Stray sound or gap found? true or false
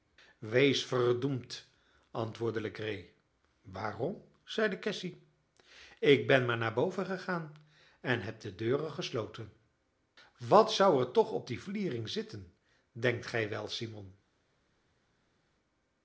false